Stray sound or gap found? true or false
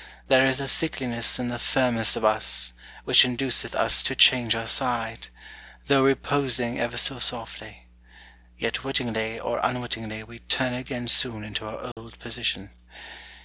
true